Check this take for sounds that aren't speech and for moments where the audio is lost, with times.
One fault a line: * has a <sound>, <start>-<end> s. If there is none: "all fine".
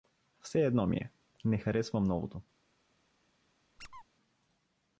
* has a squeak, 3.8-4.0 s